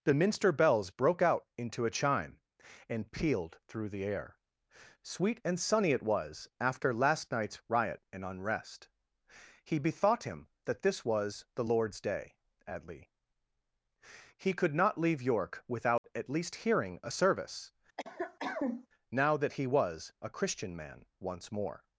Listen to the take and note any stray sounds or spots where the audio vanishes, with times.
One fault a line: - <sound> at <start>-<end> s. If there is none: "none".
- dropout at 16.0-16.0 s
- cough at 18.0-18.9 s